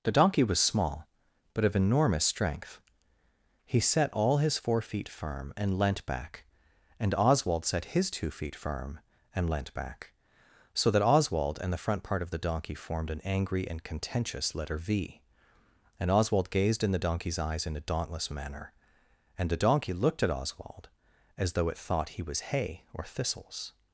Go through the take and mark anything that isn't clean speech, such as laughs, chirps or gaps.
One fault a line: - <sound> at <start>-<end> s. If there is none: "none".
none